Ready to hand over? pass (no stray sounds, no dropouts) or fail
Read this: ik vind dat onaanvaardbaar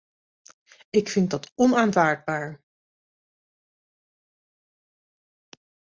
pass